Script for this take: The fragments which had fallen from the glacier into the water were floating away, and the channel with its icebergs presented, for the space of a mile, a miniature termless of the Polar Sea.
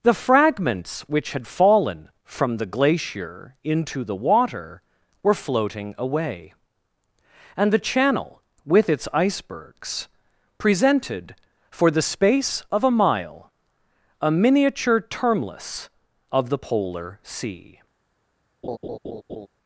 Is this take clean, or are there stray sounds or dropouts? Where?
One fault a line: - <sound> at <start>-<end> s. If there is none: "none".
- laugh at 18.6-19.5 s